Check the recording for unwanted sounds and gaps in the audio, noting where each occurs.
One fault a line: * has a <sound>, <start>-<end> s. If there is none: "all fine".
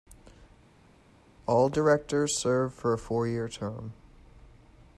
all fine